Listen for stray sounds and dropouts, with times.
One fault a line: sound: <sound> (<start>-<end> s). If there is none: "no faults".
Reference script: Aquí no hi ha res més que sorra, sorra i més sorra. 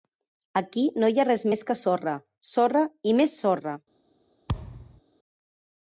sound: thud (4.5-5.0 s)